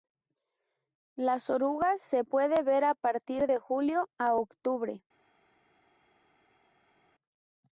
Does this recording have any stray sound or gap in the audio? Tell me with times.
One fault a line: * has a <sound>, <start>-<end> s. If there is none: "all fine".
all fine